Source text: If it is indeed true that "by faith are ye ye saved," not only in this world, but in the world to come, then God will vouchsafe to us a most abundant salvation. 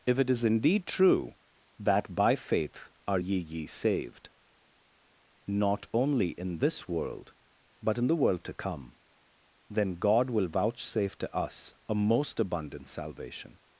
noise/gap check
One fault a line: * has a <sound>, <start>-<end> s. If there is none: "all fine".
all fine